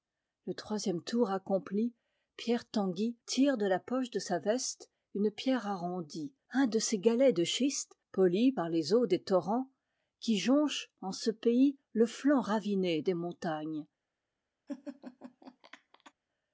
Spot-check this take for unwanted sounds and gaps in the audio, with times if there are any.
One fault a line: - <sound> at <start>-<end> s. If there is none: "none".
- laugh at 14.7-16.1 s